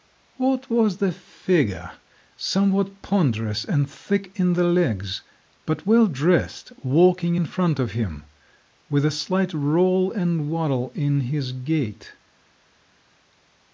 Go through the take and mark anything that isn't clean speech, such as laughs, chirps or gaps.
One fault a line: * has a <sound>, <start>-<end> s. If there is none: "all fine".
all fine